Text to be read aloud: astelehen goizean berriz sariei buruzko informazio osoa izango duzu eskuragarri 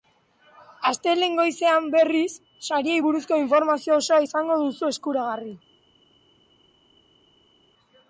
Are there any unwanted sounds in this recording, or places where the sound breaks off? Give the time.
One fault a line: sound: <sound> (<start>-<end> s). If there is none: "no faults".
no faults